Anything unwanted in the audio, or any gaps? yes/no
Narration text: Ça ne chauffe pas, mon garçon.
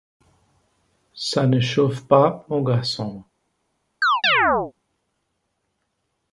yes